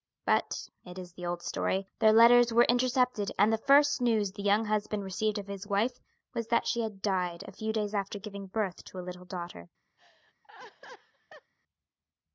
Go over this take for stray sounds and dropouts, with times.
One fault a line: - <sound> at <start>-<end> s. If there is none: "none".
- laugh at 10.0-11.5 s